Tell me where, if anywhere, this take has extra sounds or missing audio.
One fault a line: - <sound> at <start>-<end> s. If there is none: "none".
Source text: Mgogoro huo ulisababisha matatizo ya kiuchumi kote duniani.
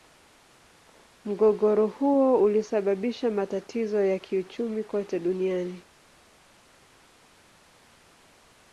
none